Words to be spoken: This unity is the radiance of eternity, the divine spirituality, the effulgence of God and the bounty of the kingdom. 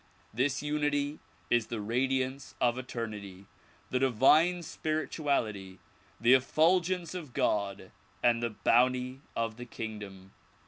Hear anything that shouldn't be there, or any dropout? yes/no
no